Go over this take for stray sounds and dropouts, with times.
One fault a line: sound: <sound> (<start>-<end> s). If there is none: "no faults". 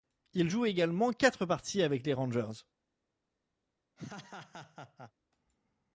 sound: laugh (4.0-5.1 s)